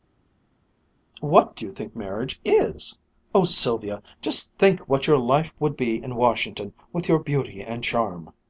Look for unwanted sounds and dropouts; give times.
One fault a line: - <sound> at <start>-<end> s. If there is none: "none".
none